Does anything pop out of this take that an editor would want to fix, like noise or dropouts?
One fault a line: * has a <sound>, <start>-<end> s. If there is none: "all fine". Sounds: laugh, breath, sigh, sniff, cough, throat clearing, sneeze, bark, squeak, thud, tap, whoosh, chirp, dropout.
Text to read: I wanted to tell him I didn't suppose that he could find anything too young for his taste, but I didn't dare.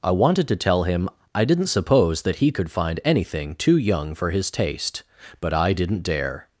all fine